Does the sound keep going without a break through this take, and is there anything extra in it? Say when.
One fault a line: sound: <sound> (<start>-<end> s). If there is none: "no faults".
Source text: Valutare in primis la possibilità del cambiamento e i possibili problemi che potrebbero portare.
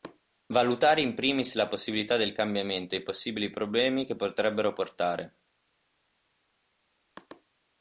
no faults